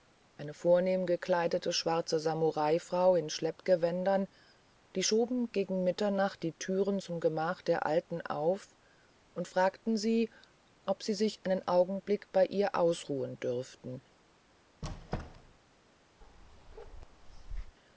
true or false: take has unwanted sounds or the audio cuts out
true